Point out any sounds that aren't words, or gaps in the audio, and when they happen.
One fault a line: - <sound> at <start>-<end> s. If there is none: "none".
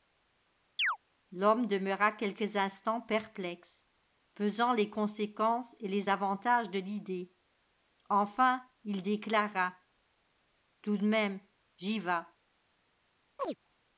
- chirp at 0.8-1.0 s
- chirp at 13.4-13.6 s